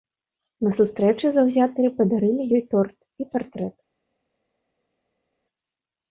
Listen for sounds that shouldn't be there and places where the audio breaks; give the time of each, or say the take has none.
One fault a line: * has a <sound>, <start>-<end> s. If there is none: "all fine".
all fine